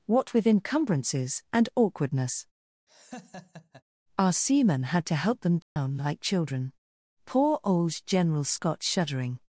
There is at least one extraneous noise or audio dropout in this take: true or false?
true